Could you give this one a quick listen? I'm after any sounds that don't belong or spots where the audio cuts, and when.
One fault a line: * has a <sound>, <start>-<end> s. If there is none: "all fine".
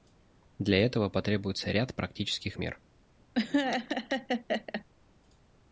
* has a laugh, 3.3-4.8 s